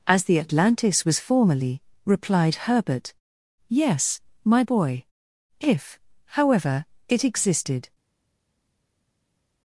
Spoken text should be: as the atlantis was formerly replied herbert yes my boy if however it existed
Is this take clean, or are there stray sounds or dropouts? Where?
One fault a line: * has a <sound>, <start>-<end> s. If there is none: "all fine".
all fine